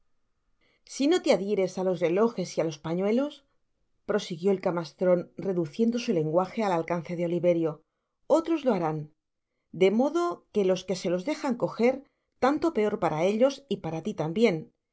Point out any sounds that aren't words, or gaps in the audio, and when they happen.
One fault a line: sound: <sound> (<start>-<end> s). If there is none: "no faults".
no faults